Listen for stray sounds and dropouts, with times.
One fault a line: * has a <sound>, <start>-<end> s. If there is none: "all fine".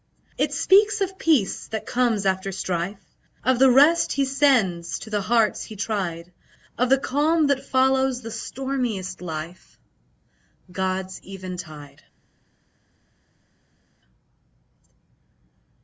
all fine